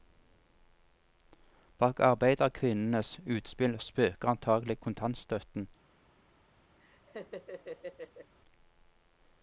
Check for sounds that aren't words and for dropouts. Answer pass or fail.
fail